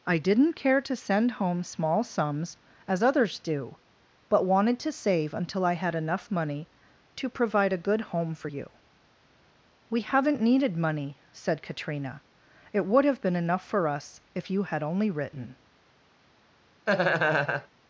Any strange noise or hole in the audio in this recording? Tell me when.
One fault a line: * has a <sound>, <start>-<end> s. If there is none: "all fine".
* has a laugh, 16.9-17.7 s